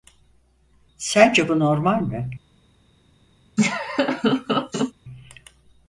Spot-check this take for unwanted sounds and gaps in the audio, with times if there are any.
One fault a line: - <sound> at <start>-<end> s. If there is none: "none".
- laugh at 3.6-4.9 s